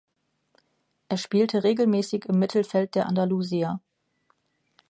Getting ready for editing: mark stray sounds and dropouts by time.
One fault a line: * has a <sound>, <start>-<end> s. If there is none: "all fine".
all fine